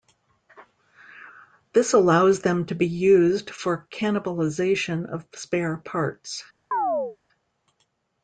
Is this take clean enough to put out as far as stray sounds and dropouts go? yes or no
no